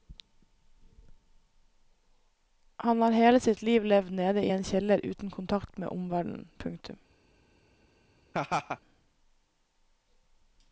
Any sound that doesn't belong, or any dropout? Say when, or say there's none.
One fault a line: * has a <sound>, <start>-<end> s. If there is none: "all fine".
* has a laugh, 8.3-8.8 s